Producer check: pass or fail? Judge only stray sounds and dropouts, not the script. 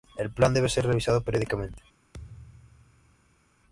fail